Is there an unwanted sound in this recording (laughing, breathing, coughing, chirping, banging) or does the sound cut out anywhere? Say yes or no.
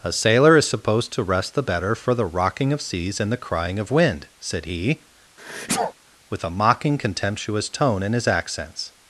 yes